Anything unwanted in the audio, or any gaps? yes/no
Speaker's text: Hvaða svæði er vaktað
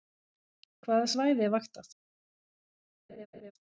yes